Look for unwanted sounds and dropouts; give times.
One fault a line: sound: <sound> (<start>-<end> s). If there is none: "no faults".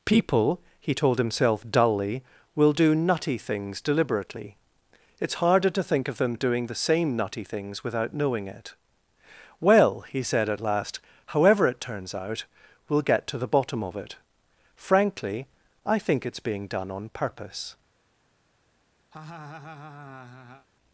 sound: laugh (19.1-20.7 s)